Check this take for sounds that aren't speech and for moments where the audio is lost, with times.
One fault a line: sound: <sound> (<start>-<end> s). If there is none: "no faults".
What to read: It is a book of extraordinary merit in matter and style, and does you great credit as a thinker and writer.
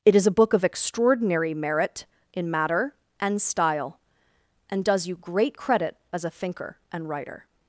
no faults